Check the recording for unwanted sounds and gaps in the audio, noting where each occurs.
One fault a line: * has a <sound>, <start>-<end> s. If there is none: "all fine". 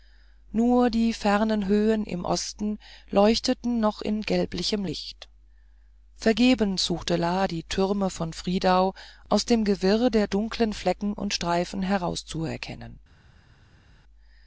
all fine